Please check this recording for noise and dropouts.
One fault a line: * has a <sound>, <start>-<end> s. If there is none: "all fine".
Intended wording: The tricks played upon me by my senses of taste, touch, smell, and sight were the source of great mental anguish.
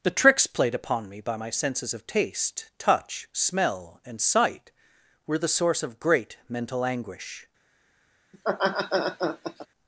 * has a laugh, 8.3-9.7 s